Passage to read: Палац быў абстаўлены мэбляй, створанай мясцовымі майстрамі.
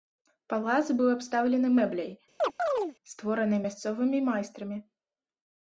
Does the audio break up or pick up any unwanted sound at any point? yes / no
yes